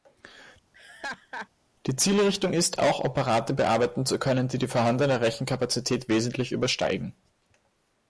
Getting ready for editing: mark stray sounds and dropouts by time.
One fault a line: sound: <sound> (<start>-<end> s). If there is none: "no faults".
sound: laugh (0.7-1.5 s)